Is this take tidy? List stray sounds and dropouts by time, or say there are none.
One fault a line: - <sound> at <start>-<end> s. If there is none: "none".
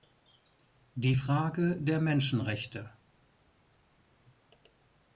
none